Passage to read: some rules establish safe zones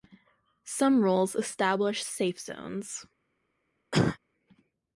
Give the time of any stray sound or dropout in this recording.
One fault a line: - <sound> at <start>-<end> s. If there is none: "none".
- cough at 3.9-4.2 s